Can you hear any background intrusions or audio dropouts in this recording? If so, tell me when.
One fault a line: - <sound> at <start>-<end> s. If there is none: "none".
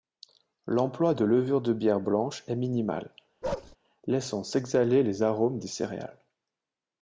- bark at 3.4-3.8 s